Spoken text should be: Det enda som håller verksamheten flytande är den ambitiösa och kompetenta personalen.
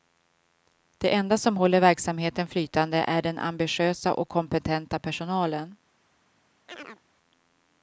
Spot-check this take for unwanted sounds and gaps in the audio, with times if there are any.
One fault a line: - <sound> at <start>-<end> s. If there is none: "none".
- chirp at 6.7-7.0 s